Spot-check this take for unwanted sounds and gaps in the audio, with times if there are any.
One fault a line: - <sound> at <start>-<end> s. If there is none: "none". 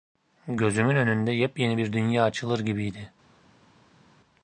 none